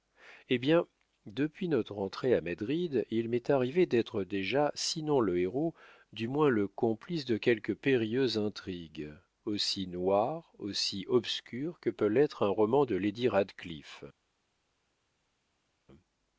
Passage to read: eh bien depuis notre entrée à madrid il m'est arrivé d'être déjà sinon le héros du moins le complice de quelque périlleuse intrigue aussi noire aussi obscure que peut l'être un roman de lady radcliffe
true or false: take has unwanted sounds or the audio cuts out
false